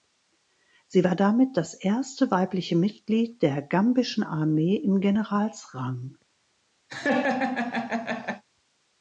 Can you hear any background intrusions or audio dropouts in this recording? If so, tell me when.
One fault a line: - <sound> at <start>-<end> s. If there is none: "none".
- laugh at 6.9-8.4 s